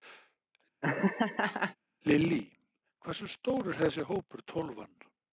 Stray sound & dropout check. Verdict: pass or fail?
fail